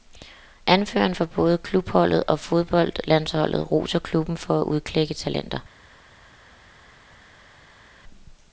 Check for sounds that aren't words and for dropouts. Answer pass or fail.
pass